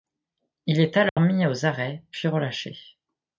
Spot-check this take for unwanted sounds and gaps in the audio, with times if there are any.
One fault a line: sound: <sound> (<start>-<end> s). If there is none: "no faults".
sound: dropout (1.1-1.2 s)